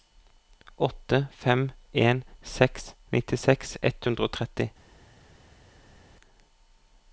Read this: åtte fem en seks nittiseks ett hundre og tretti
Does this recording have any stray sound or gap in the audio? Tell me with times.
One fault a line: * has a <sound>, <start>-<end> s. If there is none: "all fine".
all fine